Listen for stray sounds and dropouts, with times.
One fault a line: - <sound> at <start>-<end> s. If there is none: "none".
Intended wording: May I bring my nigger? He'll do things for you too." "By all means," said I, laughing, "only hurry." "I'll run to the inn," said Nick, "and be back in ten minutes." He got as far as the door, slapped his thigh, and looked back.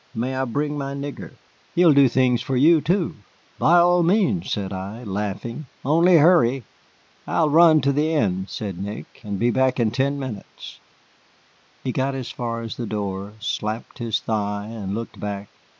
none